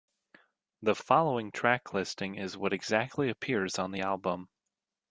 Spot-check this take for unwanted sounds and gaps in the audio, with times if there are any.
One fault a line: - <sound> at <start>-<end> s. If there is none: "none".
none